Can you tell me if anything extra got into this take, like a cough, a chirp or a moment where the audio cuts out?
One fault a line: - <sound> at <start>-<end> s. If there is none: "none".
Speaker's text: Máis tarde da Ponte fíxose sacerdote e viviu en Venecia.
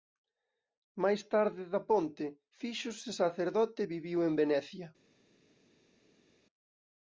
none